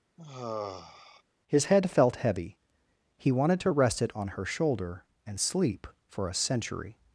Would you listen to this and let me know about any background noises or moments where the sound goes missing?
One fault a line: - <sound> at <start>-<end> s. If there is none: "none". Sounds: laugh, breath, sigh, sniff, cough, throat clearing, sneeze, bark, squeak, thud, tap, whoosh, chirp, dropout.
- sigh at 0.2-1.2 s